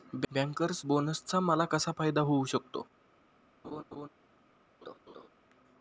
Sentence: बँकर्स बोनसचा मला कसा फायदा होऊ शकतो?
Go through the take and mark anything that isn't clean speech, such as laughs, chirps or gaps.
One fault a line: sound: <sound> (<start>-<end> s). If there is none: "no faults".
sound: laugh (3.6-4.1 s)
sound: laugh (4.8-5.3 s)